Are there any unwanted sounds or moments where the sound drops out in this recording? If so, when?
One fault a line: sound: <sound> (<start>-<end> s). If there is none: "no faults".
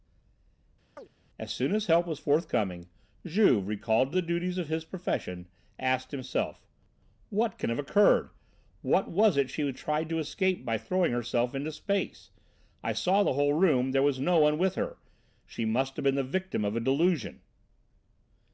sound: chirp (1.0-1.1 s)